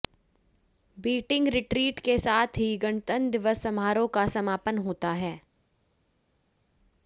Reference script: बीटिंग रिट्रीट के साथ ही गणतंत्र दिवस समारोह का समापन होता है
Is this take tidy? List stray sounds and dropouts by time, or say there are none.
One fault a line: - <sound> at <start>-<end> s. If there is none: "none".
none